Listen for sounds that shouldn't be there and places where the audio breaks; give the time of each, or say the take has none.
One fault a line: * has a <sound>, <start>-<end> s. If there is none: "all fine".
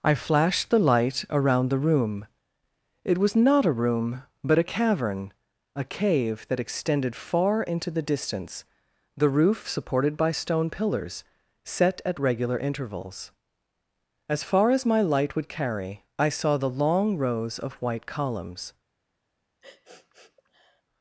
* has a sniff, 19.6-20.8 s